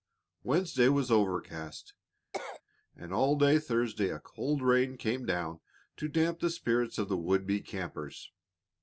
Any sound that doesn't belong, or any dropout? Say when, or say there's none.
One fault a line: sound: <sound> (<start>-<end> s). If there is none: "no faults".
sound: cough (2.3-2.6 s)